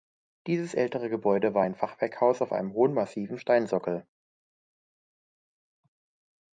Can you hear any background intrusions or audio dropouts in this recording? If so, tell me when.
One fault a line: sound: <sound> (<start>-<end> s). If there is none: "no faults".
no faults